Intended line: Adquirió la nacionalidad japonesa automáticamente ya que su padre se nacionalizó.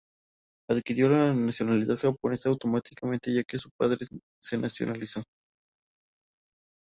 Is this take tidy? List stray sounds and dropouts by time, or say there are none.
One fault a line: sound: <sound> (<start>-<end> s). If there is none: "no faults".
no faults